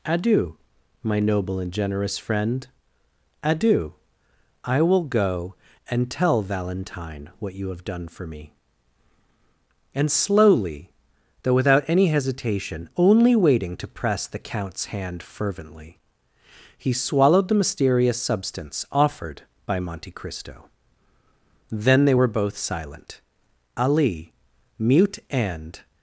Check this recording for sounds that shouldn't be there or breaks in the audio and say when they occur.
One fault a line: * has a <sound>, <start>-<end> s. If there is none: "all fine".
all fine